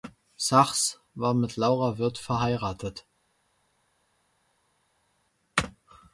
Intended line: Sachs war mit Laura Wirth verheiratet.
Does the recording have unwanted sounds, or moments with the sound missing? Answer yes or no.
no